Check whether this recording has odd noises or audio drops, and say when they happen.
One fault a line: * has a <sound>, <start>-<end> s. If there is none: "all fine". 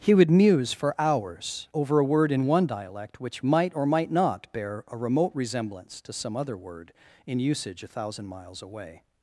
all fine